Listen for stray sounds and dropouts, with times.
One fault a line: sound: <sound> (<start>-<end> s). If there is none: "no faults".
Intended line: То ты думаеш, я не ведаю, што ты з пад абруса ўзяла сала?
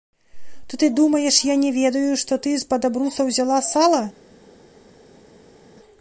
no faults